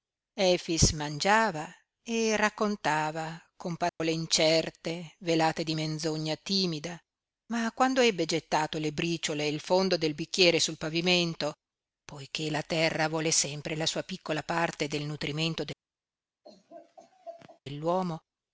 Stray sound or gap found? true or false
true